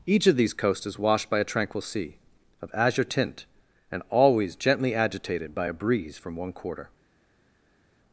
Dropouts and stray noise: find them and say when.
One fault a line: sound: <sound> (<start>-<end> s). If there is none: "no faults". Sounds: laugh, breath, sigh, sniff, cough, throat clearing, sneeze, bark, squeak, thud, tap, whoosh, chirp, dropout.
no faults